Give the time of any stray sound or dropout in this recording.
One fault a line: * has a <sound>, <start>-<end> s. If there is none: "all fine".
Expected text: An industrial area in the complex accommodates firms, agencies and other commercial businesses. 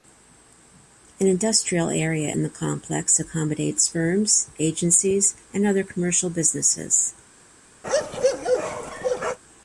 * has a bark, 7.8-9.4 s